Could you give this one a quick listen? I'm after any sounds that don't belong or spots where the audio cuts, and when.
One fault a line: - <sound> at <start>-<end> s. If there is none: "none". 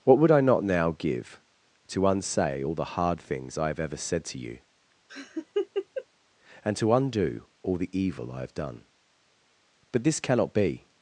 - laugh at 5.1-6.1 s